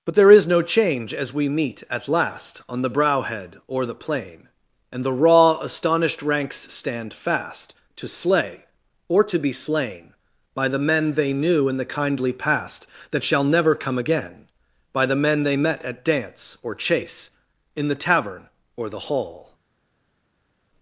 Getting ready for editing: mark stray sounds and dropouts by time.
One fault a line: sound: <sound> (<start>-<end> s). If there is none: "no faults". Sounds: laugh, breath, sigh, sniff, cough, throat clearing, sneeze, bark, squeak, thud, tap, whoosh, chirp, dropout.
no faults